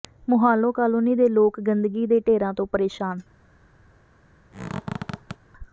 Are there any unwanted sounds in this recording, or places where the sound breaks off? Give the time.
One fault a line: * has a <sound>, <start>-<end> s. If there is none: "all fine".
* has a squeak, 4.5-5.4 s